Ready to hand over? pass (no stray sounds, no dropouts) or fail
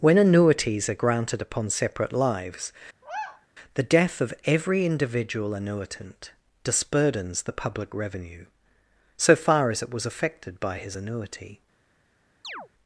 fail